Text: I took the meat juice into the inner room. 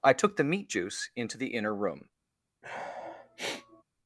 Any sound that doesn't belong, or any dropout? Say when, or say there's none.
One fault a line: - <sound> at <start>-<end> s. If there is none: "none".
- sniff at 2.6-3.8 s